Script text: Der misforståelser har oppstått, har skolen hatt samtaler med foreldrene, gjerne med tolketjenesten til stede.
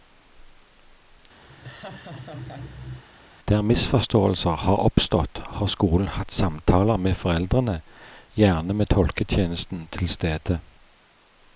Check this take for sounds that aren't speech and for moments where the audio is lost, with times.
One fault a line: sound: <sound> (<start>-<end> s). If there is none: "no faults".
sound: laugh (1.5-3.0 s)